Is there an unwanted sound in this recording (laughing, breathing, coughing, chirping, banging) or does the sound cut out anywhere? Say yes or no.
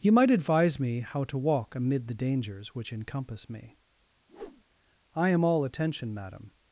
yes